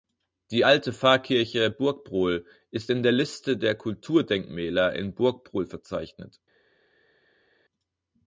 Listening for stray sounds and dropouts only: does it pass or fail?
pass